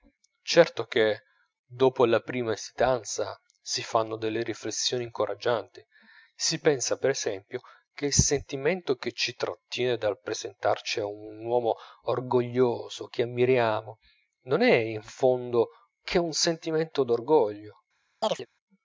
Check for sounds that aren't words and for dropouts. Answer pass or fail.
fail